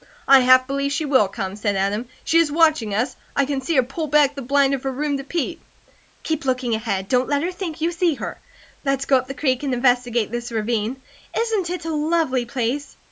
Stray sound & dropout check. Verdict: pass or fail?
pass